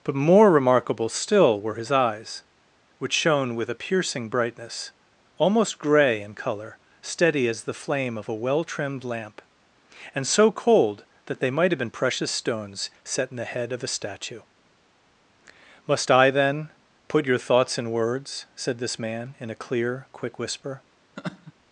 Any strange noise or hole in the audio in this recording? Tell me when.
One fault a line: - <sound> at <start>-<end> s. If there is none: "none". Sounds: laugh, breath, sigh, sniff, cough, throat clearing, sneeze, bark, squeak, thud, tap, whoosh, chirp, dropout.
- laugh at 21.2-21.5 s